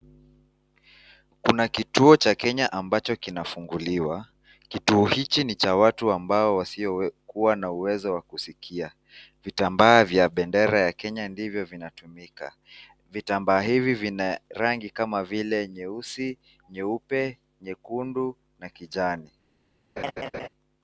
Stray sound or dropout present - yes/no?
yes